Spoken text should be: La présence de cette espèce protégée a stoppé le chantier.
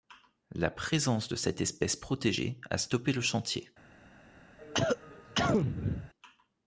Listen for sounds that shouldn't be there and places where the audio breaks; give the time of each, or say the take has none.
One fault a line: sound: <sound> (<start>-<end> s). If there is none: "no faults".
sound: cough (4.6-6.1 s)